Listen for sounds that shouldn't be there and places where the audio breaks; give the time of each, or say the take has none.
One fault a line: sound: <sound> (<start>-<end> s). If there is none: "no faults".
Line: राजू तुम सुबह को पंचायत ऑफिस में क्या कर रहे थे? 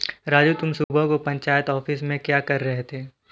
sound: dropout (0.8-0.9 s)